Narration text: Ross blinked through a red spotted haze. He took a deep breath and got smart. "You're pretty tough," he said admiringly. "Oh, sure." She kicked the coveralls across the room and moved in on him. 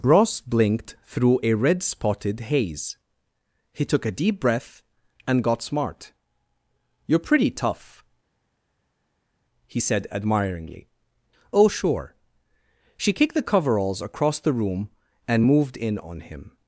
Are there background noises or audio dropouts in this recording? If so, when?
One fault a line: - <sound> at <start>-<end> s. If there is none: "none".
none